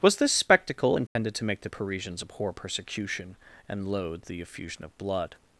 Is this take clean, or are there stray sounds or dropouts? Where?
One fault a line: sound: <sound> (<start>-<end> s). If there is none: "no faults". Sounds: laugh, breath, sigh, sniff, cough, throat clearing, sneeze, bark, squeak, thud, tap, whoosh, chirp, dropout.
sound: dropout (1.1-1.2 s)